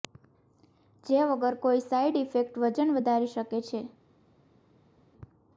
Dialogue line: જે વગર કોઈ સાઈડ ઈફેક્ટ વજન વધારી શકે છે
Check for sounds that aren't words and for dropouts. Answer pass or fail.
pass